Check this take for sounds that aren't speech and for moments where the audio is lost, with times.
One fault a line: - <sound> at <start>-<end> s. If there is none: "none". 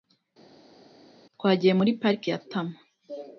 none